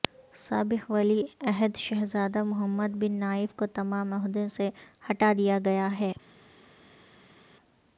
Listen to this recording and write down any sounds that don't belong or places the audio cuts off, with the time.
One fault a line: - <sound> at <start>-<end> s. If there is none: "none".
none